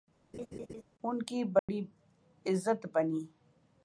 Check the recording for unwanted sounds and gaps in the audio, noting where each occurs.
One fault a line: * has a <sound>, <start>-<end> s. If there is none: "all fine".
* has a laugh, 0.3-0.8 s
* has a dropout, 1.6-1.7 s